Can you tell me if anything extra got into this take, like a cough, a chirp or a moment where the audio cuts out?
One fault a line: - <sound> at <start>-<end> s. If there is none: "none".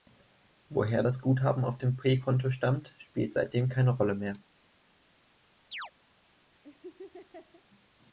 - chirp at 5.7-5.9 s
- laugh at 6.6-7.6 s